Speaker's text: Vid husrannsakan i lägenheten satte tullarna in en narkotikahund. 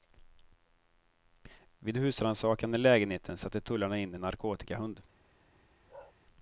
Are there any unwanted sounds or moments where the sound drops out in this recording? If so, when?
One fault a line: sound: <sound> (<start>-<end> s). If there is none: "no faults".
sound: bark (5.9-6.1 s)